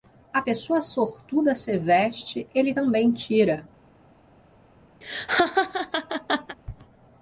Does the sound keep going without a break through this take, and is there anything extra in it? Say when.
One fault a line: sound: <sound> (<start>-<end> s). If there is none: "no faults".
sound: laugh (5.0-6.6 s)